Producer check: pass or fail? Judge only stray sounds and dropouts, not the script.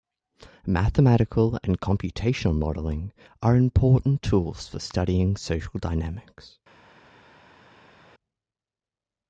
pass